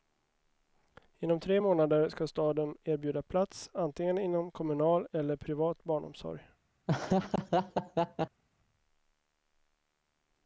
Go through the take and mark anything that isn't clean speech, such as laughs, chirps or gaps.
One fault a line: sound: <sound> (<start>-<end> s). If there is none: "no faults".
sound: laugh (6.9-8.4 s)